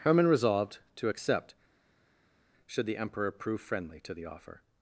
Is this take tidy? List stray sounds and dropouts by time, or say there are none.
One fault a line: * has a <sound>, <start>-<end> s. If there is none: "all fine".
all fine